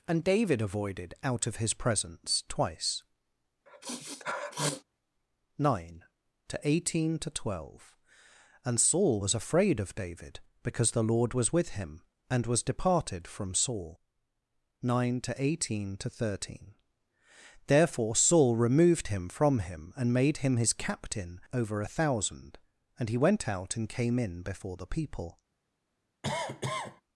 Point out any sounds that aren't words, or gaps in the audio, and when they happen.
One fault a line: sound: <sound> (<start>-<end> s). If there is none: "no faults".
sound: sniff (3.7-4.8 s)
sound: cough (26.2-27.0 s)